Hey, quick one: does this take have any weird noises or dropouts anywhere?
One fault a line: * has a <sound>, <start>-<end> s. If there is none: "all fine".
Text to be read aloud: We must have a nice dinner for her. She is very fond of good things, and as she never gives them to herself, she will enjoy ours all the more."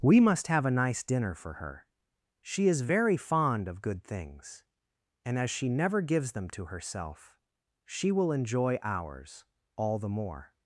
all fine